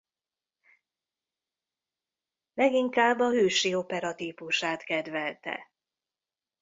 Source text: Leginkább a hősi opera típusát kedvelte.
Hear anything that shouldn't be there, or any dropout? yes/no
no